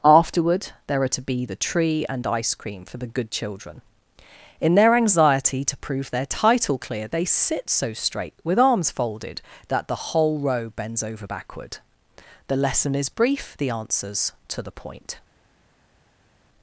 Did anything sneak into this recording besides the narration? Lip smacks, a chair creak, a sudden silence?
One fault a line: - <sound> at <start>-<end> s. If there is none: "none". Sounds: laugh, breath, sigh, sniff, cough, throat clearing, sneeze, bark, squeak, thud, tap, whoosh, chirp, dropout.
none